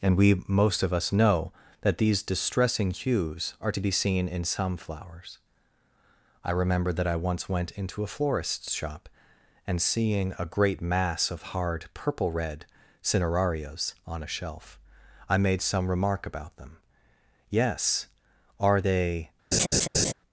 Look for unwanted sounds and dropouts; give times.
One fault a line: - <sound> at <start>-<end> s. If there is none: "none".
- laugh at 19.5-20.1 s